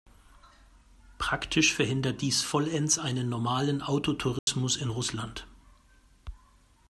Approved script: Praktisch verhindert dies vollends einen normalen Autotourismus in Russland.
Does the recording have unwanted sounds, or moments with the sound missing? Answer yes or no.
yes